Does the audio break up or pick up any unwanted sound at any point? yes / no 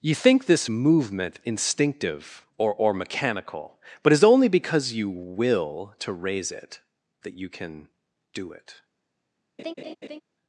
yes